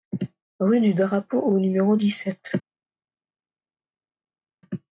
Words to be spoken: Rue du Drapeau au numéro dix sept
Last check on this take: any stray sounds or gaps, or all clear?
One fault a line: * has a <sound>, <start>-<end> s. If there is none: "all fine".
all fine